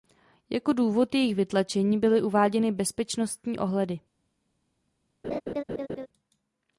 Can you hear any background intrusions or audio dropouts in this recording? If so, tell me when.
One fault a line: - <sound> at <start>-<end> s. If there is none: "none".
- laugh at 5.2-6.1 s